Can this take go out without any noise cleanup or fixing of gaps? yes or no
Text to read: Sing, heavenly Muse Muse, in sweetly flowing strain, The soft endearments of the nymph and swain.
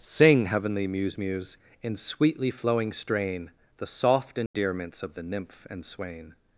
no